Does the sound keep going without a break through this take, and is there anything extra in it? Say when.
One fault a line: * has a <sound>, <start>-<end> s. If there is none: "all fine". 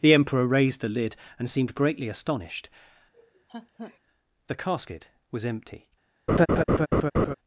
* has a laugh, 3.1-4.0 s
* has a laugh, 6.3-7.3 s